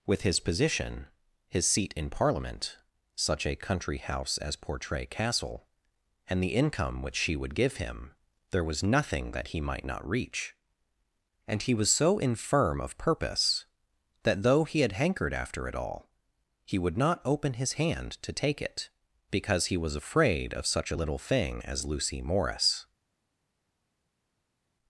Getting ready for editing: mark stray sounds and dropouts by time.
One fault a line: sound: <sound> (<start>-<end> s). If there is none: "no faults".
no faults